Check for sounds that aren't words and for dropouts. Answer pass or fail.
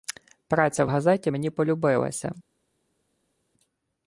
pass